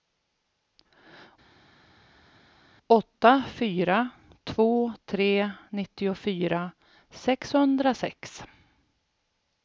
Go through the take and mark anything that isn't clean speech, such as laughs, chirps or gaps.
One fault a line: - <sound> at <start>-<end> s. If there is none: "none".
none